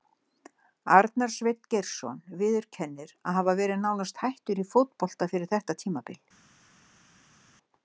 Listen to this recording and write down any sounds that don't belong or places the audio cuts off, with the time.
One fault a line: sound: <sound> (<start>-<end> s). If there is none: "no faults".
no faults